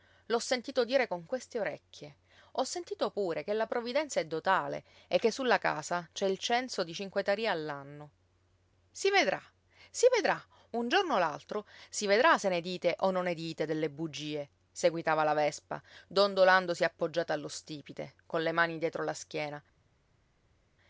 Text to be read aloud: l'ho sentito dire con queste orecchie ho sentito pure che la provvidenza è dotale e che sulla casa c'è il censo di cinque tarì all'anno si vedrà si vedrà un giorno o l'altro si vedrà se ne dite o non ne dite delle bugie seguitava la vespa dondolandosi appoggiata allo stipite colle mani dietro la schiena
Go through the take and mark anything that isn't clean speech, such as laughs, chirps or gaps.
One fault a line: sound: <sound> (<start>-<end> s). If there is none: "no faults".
no faults